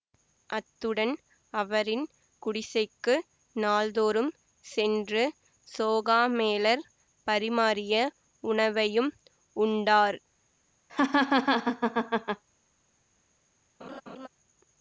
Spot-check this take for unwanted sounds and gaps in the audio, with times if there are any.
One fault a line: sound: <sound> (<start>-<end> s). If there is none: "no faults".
sound: laugh (10.9-12.4 s)
sound: laugh (13.8-14.3 s)